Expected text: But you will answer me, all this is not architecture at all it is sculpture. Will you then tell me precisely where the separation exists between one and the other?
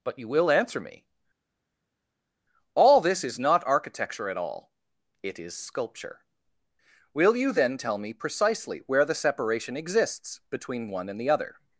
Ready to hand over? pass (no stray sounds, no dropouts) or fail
pass